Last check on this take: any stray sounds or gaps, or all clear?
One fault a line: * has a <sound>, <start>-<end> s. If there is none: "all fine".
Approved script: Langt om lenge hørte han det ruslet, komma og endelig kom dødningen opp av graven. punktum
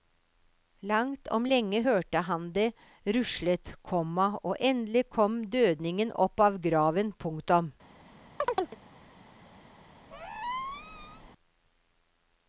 * has a chirp, 8.4-8.8 s
* has a squeak, 10.1-11.3 s